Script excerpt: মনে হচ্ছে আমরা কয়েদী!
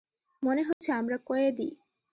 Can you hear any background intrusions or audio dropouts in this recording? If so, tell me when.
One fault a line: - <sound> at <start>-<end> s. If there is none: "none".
- dropout at 0.7-0.8 s